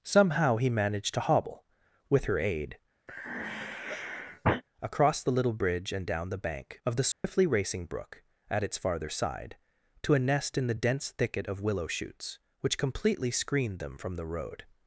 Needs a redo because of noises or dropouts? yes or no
yes